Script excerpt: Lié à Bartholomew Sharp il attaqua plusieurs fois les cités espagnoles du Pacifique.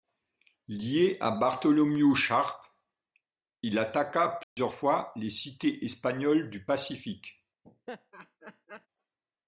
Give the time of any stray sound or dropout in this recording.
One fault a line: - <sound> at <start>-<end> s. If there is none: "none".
- dropout at 4.4-4.6 s
- laugh at 7.6-8.9 s